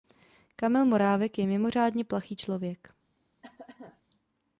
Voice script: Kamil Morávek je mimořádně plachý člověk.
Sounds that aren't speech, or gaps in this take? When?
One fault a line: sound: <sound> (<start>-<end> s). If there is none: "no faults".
sound: cough (3.4-4.0 s)